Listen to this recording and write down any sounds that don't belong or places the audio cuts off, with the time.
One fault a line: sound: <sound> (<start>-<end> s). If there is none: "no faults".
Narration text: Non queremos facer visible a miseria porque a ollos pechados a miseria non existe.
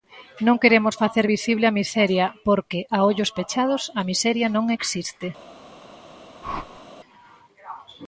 sound: whoosh (6.4-6.9 s)